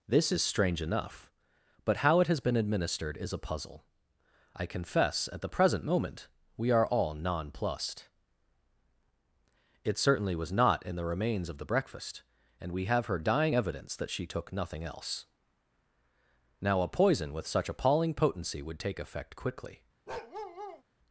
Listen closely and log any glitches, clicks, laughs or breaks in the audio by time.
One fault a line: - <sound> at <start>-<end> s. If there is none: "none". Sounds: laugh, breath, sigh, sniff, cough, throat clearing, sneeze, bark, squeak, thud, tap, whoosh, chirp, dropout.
- bark at 20.1-20.8 s